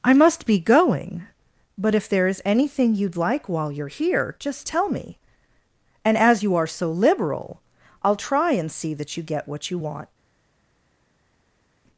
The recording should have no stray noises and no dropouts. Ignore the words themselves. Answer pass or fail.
pass